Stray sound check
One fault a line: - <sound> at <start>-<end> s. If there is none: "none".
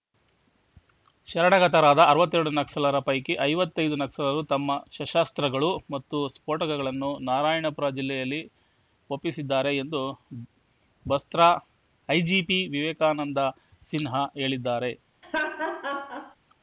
- laugh at 15.2-16.4 s